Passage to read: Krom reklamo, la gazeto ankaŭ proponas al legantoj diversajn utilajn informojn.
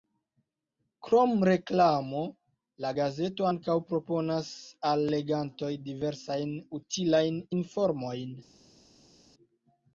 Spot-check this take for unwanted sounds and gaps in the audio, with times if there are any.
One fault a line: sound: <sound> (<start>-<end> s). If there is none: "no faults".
no faults